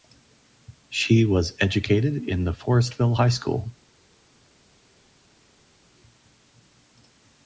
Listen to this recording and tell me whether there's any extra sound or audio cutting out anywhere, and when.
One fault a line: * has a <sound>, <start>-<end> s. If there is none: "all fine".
all fine